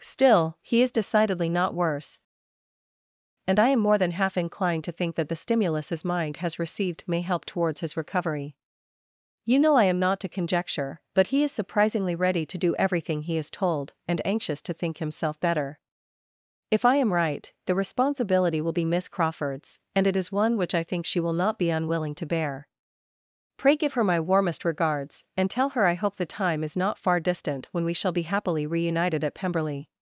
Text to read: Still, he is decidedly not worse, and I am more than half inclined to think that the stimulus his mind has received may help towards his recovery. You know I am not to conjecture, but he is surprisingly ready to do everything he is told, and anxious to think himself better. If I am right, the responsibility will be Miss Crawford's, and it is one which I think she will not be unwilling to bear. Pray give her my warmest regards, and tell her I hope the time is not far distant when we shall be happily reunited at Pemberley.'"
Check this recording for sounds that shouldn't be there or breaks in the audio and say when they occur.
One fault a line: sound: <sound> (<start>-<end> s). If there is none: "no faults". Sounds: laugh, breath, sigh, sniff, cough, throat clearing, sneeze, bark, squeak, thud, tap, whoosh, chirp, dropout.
no faults